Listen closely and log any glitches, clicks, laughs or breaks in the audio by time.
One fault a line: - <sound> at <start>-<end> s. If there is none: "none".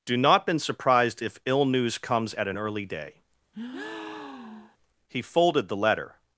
- breath at 3.5-4.8 s